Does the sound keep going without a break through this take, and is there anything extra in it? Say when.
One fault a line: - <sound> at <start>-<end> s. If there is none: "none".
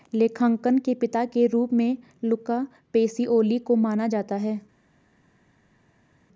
none